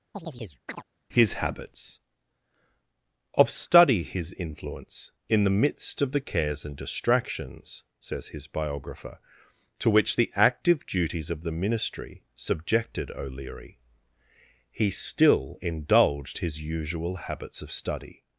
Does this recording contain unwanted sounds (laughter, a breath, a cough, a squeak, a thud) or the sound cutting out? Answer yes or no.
yes